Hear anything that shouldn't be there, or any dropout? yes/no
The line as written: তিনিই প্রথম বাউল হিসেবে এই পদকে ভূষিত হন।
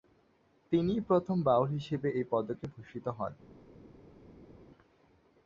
no